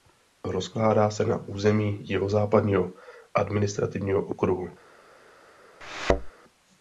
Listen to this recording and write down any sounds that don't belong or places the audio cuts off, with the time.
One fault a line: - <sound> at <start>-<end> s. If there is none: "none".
- thud at 5.8-6.3 s